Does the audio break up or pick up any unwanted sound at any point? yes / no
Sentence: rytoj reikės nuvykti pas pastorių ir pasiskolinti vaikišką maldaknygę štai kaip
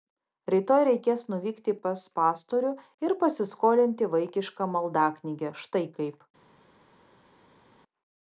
no